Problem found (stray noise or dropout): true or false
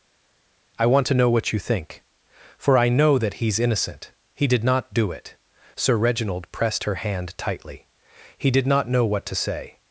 false